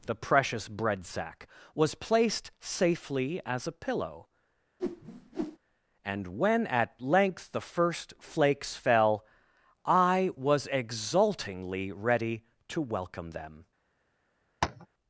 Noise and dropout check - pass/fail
fail